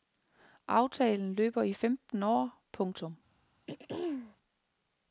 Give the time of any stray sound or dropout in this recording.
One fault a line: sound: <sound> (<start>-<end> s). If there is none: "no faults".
sound: throat clearing (3.7-4.4 s)